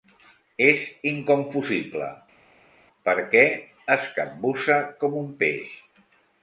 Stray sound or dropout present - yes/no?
no